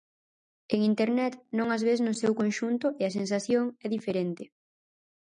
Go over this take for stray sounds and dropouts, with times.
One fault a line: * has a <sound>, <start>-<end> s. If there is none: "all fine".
all fine